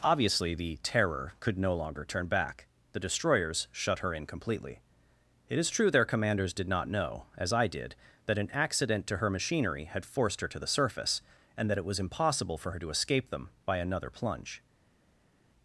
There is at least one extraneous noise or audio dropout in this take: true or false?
false